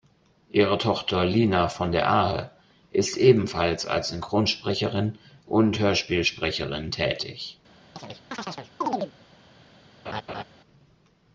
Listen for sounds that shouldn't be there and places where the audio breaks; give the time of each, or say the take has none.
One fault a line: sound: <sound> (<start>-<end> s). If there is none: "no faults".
sound: chirp (8.0-9.1 s)
sound: laugh (10.1-10.4 s)